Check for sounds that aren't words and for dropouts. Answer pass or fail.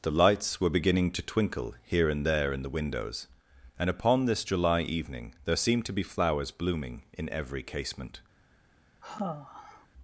fail